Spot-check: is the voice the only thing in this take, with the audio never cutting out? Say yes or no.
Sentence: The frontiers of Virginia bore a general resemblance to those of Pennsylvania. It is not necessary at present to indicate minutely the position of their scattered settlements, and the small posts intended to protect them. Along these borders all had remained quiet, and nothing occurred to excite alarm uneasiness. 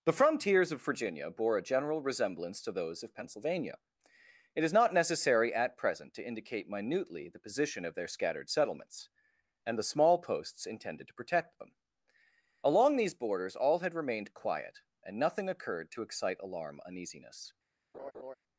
no